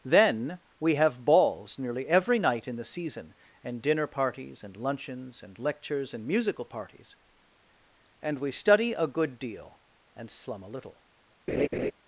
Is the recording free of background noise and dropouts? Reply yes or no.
no